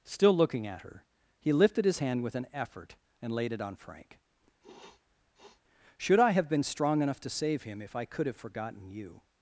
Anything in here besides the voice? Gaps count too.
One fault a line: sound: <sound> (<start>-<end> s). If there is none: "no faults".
sound: sniff (4.6-5.6 s)